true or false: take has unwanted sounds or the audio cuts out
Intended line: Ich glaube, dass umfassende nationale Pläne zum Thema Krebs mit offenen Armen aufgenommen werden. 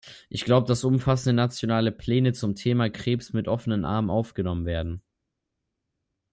false